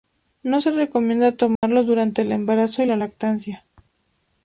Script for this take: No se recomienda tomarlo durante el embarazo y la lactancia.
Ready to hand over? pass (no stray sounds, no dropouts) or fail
fail